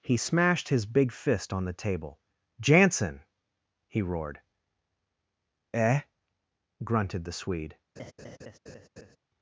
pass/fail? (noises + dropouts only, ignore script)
fail